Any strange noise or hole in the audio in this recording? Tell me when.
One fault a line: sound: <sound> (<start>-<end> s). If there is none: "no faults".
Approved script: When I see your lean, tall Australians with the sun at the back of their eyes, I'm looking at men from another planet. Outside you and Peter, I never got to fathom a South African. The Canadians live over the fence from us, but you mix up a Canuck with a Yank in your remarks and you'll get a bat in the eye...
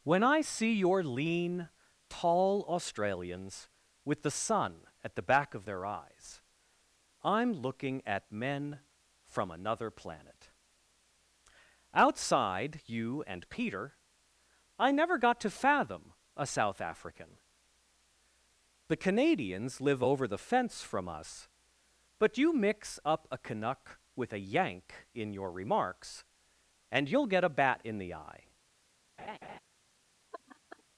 sound: laugh (29.2-29.6 s)
sound: laugh (30.3-30.8 s)